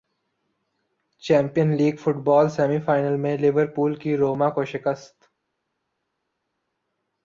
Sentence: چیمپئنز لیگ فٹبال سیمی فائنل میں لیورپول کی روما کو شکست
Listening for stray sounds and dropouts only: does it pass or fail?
pass